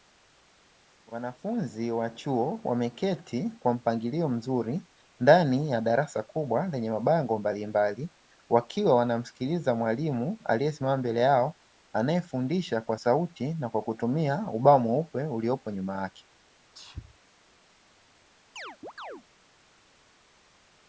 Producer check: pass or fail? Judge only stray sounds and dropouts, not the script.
fail